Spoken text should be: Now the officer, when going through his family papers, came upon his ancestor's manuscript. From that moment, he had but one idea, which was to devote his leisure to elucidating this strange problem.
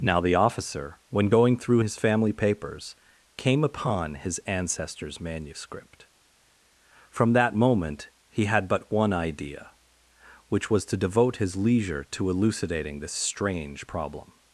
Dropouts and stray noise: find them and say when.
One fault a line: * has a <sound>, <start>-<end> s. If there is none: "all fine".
all fine